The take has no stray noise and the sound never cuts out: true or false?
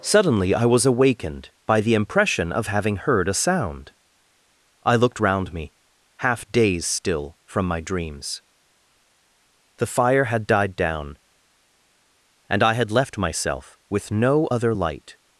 true